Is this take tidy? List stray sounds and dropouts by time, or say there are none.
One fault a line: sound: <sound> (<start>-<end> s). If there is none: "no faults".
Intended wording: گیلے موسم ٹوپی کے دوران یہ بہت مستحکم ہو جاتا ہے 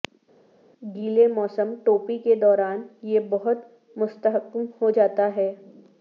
no faults